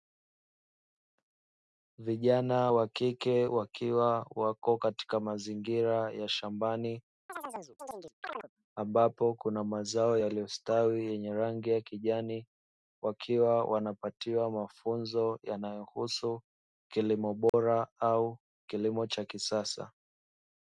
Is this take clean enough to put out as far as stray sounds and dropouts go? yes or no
no